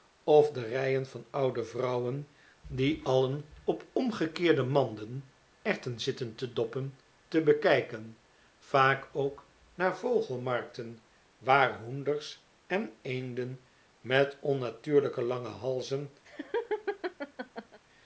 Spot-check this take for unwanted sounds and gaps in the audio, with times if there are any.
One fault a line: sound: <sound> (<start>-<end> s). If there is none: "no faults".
sound: laugh (16.2-17.8 s)